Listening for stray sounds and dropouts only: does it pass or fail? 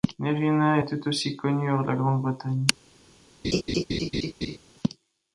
fail